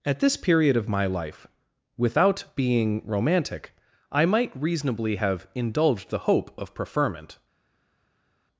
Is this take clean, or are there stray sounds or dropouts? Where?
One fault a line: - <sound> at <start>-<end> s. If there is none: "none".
none